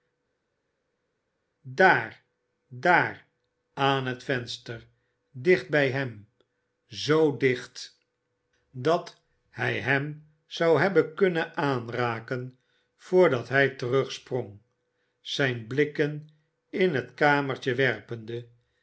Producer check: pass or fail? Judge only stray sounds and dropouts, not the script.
pass